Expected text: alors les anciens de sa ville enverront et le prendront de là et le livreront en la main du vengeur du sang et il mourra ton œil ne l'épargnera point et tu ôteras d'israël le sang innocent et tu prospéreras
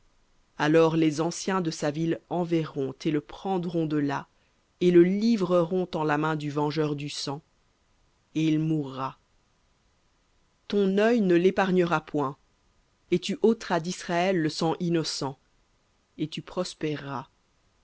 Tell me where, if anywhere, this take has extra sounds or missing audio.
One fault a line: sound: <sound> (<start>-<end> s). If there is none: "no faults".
no faults